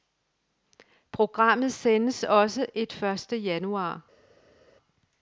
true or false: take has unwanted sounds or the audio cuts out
false